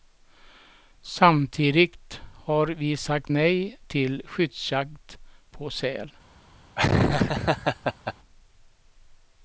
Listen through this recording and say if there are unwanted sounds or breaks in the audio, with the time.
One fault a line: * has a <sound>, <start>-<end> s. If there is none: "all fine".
* has a laugh, 6.8-8.1 s